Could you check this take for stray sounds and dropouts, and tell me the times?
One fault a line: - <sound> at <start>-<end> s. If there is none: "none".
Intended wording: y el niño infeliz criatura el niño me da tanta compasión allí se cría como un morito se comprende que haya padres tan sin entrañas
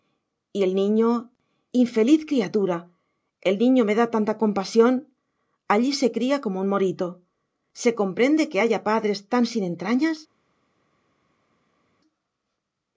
none